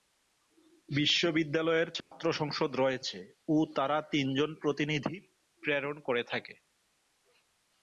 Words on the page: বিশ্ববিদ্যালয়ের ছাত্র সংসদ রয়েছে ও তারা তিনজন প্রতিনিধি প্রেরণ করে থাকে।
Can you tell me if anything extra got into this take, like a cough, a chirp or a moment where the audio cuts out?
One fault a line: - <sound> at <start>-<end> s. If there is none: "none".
- dropout at 2.0-2.1 s